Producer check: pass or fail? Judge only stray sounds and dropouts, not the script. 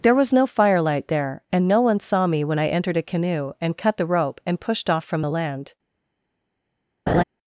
fail